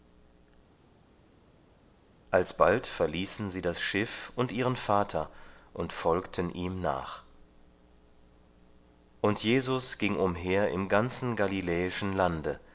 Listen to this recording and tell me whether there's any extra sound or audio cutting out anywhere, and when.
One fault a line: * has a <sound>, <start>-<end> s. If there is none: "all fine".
all fine